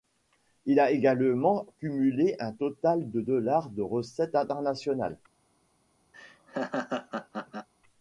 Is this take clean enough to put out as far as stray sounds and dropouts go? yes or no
no